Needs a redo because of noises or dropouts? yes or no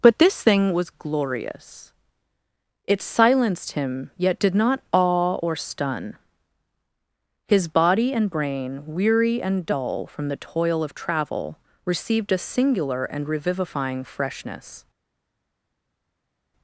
no